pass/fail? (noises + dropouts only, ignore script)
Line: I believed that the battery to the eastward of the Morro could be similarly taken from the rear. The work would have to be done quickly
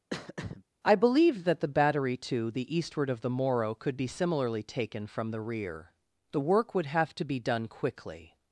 fail